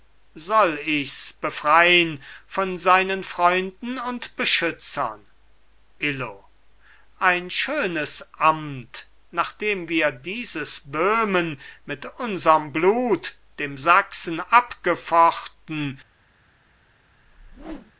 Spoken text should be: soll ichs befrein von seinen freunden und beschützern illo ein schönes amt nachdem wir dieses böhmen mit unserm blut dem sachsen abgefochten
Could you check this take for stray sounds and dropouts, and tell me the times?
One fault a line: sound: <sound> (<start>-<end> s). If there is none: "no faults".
sound: whoosh (17.2-17.9 s)